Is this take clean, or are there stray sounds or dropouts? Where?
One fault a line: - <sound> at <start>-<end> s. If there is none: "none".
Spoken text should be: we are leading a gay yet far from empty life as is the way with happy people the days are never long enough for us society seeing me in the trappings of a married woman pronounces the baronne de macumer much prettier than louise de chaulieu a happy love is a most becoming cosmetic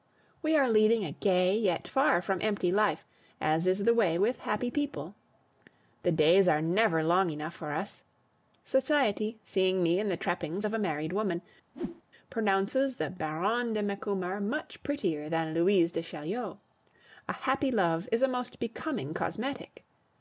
- whoosh at 11.7-12.0 s